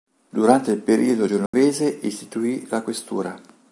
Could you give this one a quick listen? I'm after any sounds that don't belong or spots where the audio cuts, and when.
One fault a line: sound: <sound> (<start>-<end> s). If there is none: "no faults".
sound: dropout (1.5-1.5 s)